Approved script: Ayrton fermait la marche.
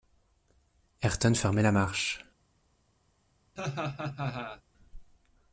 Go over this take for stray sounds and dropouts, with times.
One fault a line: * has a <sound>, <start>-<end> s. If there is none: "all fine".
* has a laugh, 3.6-4.6 s